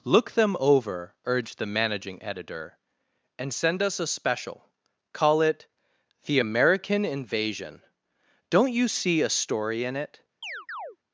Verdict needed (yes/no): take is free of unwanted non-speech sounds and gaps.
no